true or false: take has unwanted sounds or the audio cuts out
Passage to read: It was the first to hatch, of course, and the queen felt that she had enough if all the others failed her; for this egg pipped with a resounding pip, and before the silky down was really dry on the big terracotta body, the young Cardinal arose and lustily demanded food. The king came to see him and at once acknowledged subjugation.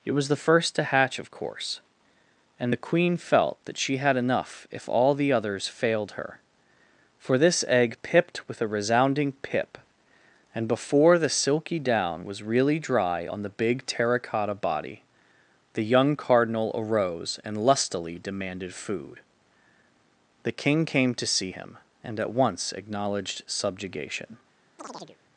true